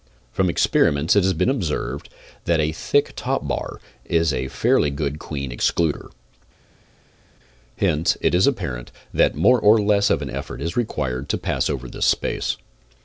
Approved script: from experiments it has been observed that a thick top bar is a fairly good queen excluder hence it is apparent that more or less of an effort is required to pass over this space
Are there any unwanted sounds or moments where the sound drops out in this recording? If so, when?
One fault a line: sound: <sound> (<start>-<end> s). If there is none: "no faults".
no faults